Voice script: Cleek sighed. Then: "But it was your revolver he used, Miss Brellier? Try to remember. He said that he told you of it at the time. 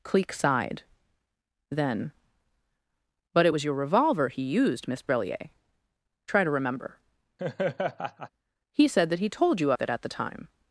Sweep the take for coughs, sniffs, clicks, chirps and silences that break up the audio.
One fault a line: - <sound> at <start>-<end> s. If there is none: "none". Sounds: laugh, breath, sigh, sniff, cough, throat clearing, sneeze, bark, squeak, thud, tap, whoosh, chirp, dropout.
- laugh at 7.4-8.3 s